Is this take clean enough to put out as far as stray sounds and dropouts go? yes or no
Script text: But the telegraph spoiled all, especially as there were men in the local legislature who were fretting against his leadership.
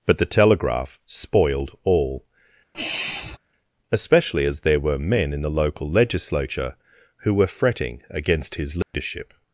no